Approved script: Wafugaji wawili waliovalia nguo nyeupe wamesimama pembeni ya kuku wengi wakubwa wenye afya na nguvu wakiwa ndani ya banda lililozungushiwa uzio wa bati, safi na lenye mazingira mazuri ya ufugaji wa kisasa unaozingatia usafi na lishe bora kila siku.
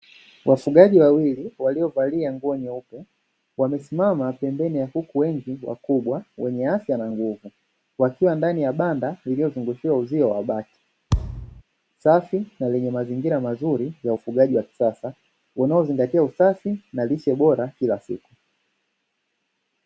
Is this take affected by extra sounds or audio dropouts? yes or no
yes